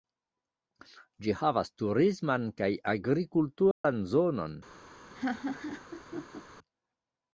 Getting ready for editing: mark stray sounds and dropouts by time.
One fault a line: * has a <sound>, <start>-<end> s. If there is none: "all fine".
* has a dropout, 3.7-3.8 s
* has a laugh, 5.1-6.4 s